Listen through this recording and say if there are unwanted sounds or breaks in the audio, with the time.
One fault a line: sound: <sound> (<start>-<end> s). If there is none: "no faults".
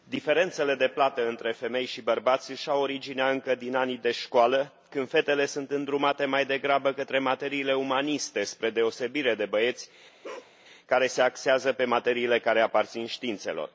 sound: bark (10.2-10.5 s)